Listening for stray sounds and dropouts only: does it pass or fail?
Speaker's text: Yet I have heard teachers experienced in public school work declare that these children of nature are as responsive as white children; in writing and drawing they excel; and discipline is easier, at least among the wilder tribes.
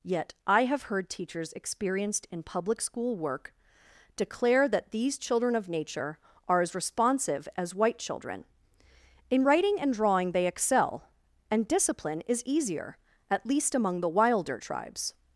pass